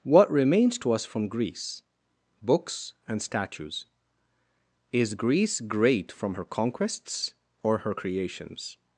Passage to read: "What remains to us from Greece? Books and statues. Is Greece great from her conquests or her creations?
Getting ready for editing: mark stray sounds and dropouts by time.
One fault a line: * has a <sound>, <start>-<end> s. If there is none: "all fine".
all fine